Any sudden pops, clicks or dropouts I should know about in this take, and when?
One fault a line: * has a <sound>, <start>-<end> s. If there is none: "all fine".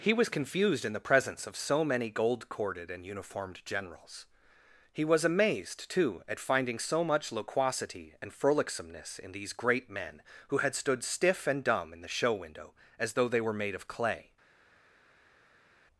all fine